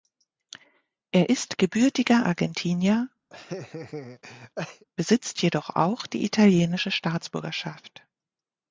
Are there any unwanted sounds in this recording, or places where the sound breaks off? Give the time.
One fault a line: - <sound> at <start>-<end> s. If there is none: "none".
- laugh at 3.3-4.8 s